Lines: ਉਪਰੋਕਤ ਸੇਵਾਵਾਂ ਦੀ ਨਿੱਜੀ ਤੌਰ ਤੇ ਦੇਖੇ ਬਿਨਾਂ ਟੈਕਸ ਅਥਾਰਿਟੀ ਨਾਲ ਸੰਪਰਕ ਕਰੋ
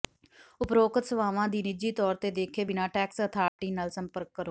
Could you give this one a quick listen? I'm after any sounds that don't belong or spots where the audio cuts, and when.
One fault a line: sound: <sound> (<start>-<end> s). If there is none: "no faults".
sound: dropout (3.5-3.6 s)